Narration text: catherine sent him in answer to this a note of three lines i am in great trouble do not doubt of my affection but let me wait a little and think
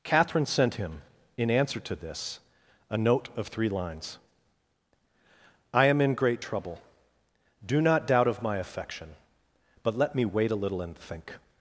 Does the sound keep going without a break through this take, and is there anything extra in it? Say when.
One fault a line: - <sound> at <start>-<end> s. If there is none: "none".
none